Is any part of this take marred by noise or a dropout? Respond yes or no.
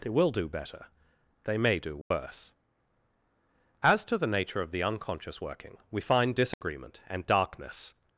yes